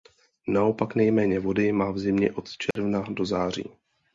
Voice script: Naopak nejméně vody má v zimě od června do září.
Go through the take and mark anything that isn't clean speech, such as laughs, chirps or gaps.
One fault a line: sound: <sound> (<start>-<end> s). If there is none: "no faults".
sound: dropout (2.7-2.8 s)